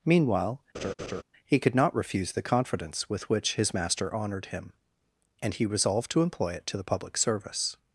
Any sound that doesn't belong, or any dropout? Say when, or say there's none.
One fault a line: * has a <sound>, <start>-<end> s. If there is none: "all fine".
* has a laugh, 0.7-1.2 s